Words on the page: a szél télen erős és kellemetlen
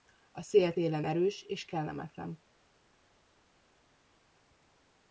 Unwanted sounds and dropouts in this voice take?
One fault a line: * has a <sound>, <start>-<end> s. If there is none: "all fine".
all fine